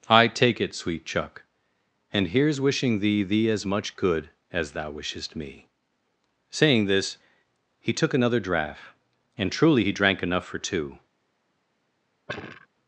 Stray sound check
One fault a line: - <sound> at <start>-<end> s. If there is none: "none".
- sigh at 12.3-12.7 s